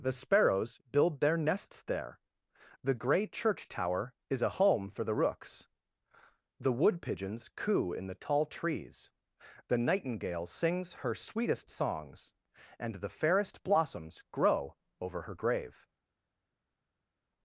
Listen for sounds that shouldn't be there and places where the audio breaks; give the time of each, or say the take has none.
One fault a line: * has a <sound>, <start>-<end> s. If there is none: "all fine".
all fine